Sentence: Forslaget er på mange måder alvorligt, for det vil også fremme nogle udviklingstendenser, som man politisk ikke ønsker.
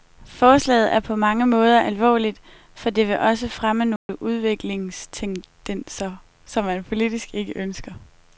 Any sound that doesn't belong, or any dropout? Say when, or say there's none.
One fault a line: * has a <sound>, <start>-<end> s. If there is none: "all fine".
* has a dropout, 4.0-4.1 s